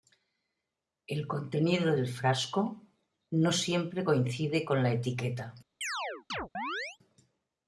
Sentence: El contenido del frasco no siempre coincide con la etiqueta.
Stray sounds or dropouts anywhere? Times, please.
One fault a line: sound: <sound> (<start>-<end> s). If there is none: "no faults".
sound: chirp (5.8-7.0 s)